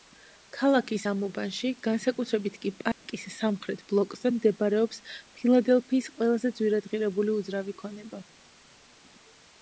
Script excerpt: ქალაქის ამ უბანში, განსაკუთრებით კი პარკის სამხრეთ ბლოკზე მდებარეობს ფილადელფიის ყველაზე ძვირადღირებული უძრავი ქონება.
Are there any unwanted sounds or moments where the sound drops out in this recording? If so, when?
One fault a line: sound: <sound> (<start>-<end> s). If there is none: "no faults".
sound: dropout (2.9-3.1 s)